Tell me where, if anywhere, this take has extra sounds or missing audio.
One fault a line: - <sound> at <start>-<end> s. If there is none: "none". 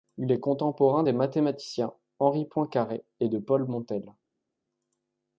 none